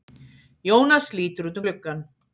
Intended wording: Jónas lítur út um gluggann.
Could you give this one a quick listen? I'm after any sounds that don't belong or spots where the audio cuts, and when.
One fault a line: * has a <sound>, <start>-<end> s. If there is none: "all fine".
all fine